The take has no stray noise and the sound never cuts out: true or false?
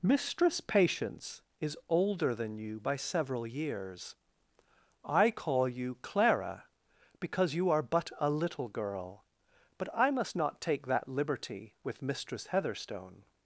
true